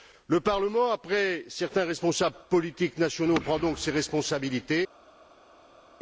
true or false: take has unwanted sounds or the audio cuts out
false